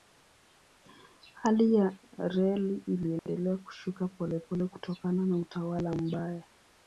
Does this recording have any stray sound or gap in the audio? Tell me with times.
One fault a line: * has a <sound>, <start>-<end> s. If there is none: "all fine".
* has a dropout, 3.2-3.3 s